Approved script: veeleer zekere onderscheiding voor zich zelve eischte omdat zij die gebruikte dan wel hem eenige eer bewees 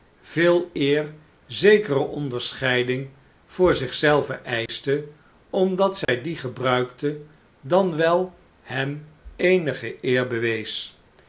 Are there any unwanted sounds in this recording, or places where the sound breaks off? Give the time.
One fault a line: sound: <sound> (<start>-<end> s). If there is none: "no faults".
sound: dropout (4.7-4.7 s)
sound: dropout (6.0-6.1 s)